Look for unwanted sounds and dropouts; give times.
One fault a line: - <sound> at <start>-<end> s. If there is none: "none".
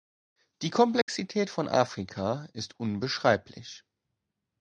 - dropout at 1.0-1.1 s